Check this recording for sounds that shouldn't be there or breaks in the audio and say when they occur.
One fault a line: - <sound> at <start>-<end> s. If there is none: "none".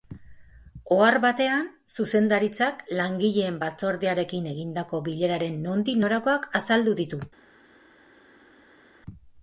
none